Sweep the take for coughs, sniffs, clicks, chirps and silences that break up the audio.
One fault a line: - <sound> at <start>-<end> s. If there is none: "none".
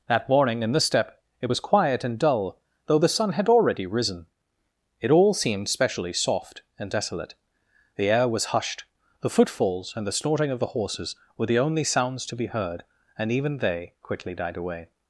none